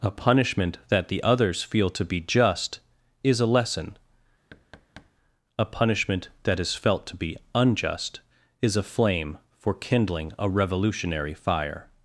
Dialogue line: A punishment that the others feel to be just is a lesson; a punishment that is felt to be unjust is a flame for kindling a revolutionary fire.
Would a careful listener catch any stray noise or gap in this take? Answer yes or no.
yes